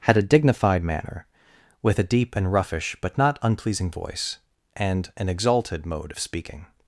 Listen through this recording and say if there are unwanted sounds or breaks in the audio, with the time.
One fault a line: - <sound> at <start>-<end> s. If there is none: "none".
none